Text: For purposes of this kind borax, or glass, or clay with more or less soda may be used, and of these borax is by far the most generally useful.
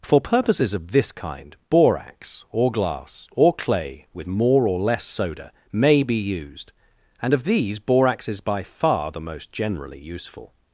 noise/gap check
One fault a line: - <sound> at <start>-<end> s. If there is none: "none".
none